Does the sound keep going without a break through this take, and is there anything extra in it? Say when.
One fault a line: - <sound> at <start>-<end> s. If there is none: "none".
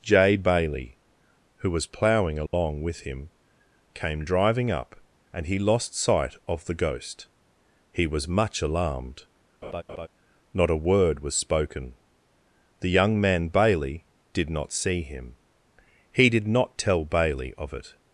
- dropout at 2.5-2.5 s
- laugh at 9.6-10.1 s